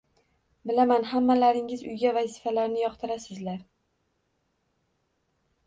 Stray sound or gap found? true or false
false